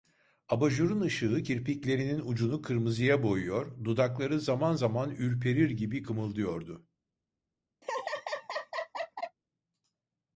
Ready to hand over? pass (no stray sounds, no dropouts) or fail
fail